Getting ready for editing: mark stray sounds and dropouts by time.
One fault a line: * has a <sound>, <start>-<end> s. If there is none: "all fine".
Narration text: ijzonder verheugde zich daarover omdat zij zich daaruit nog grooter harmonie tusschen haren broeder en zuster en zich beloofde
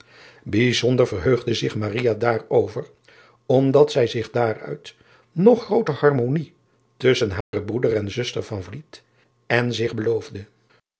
* has a dropout, 7.4-7.5 s